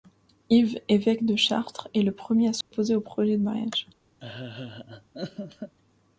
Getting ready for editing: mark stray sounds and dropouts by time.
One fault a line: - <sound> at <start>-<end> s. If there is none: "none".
- dropout at 2.6-2.7 s
- laugh at 4.2-5.8 s